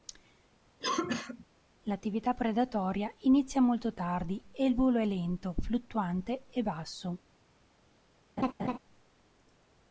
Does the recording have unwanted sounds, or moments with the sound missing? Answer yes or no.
yes